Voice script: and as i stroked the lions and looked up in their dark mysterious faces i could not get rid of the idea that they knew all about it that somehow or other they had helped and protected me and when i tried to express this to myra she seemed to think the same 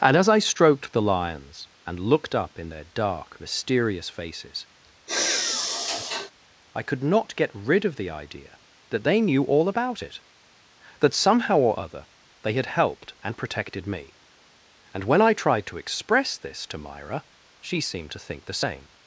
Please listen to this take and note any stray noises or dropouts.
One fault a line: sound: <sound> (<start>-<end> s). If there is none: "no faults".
sound: sigh (5.1-6.3 s)